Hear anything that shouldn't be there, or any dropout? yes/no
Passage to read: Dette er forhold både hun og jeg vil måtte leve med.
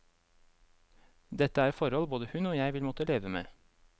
no